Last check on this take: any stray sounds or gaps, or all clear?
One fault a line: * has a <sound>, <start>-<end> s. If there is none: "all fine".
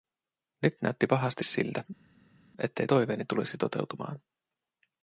all fine